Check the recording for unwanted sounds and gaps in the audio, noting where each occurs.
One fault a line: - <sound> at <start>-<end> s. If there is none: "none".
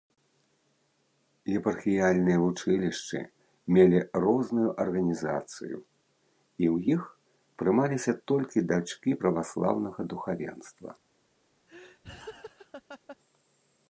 - laugh at 11.7-13.2 s